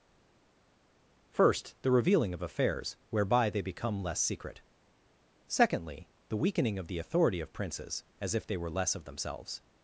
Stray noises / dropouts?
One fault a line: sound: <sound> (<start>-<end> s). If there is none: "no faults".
no faults